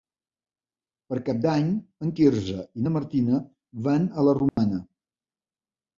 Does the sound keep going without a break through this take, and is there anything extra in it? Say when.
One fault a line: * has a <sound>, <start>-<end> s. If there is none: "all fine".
* has a dropout, 4.5-4.6 s